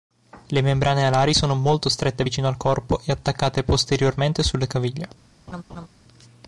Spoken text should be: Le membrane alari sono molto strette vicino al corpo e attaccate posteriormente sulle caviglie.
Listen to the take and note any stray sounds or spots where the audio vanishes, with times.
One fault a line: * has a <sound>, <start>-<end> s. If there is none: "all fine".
* has a laugh, 5.5-5.9 s